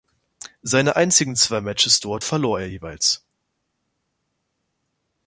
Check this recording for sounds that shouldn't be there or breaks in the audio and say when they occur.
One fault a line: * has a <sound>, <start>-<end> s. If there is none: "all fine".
all fine